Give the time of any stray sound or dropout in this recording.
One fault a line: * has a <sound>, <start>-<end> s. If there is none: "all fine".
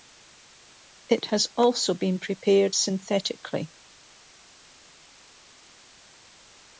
all fine